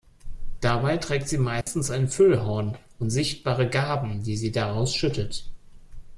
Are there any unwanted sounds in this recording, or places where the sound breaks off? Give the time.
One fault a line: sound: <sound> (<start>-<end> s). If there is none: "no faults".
sound: dropout (1.6-1.7 s)